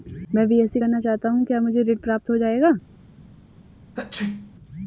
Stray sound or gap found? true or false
true